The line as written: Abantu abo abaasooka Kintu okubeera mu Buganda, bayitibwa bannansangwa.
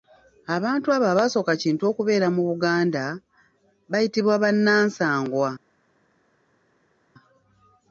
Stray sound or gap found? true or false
false